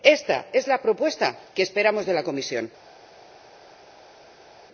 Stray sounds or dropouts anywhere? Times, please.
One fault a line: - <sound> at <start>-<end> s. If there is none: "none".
none